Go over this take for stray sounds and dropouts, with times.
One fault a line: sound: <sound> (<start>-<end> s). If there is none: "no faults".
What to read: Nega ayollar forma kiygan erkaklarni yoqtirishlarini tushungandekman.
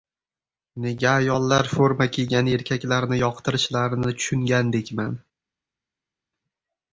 no faults